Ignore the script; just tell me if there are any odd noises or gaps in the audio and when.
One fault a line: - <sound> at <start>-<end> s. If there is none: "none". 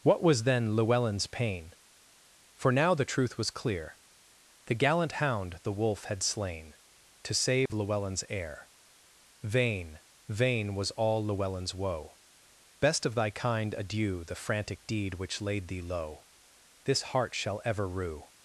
- dropout at 7.7-7.7 s